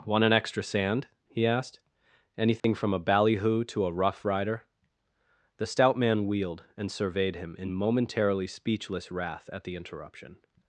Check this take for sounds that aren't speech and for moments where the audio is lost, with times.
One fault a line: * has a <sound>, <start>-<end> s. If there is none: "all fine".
* has a dropout, 2.6-2.6 s